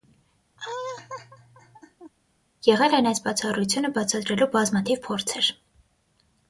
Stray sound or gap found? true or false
true